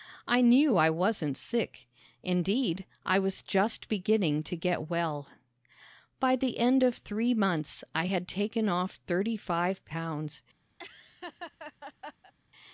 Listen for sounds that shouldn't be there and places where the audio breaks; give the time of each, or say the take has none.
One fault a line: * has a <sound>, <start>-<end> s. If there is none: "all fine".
* has a laugh, 10.8-12.3 s